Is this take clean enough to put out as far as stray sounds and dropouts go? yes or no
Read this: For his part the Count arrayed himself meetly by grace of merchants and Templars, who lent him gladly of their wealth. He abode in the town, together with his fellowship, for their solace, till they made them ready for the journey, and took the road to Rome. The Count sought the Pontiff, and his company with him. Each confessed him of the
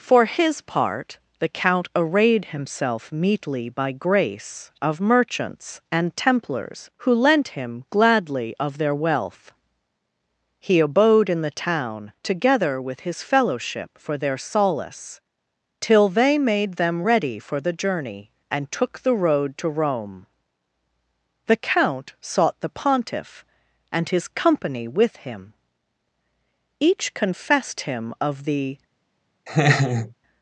no